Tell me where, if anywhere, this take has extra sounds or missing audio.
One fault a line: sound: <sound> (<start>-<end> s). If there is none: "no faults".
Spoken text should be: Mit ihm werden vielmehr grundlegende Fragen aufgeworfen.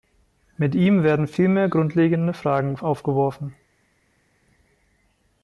no faults